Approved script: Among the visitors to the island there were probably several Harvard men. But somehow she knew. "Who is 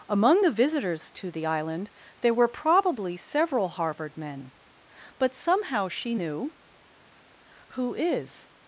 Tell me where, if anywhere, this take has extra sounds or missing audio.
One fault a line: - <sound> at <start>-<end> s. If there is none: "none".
none